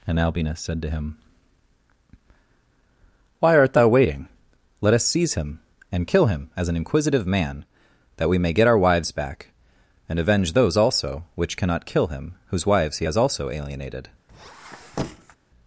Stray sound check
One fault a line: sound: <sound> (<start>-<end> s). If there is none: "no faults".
sound: squeak (14.3-15.4 s)